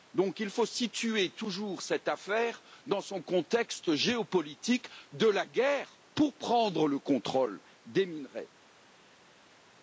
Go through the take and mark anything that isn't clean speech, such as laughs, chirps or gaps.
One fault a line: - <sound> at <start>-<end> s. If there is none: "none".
none